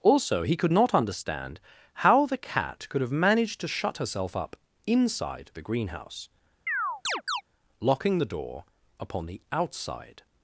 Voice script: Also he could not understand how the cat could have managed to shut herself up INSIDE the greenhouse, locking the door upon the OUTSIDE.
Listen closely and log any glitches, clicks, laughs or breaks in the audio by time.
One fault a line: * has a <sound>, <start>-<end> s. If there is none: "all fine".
* has a chirp, 6.7-7.4 s